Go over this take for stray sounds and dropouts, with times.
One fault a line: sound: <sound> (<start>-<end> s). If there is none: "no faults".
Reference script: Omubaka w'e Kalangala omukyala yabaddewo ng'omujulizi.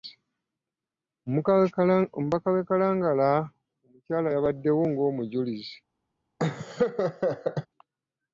sound: laugh (6.4-7.7 s)